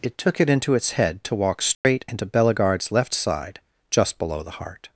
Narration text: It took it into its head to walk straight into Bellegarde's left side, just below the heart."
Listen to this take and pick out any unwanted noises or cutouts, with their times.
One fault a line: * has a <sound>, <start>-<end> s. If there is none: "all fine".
* has a dropout, 1.7-1.8 s